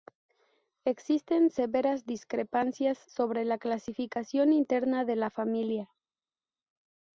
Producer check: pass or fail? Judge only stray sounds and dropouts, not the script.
pass